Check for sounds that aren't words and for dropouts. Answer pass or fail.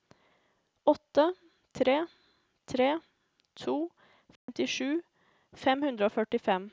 fail